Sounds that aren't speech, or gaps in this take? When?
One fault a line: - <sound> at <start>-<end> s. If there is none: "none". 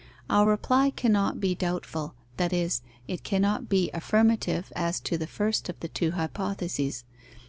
none